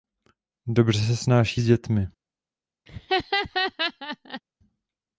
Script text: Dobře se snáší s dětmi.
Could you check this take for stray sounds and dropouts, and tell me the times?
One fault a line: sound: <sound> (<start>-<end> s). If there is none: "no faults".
sound: laugh (2.9-4.4 s)